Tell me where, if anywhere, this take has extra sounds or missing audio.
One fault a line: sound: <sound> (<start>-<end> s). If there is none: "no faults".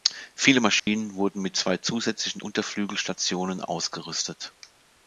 sound: dropout (0.8-0.9 s)